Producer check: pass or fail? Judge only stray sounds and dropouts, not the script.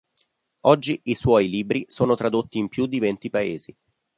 pass